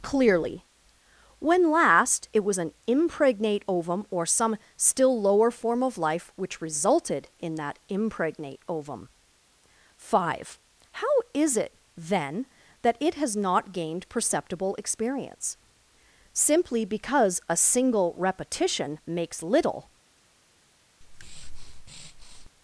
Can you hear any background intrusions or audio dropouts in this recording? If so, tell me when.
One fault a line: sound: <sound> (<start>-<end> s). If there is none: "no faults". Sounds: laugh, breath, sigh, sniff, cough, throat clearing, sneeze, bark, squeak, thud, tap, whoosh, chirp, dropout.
sound: breath (21.0-22.5 s)